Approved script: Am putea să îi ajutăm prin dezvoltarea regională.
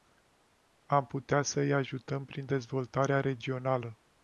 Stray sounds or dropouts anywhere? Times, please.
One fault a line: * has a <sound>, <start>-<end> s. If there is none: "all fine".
all fine